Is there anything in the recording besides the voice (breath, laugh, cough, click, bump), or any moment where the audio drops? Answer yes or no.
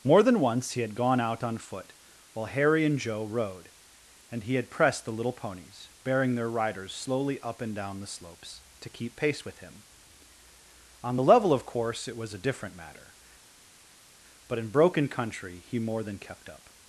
no